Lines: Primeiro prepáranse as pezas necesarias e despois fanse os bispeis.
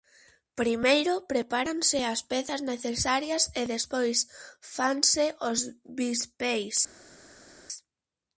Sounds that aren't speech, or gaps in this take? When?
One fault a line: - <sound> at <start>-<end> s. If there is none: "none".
none